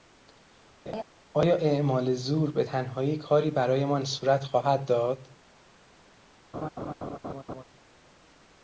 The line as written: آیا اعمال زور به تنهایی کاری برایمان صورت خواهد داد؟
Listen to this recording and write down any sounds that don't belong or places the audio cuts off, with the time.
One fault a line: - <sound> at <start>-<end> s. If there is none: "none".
- laugh at 0.9-1.0 s
- laugh at 6.5-7.6 s